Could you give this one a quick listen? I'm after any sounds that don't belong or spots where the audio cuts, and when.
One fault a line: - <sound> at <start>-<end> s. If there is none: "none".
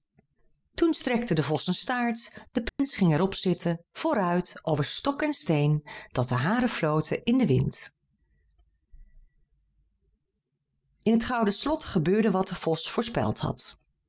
- dropout at 2.7-2.8 s